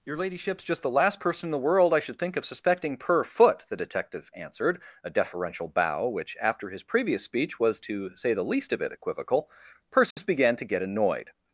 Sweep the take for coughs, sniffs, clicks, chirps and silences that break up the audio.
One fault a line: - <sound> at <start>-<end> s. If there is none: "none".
- dropout at 10.1-10.2 s